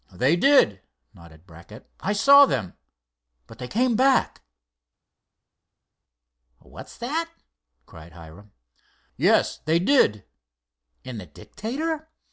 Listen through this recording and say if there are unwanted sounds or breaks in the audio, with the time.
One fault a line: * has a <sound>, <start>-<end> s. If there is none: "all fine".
all fine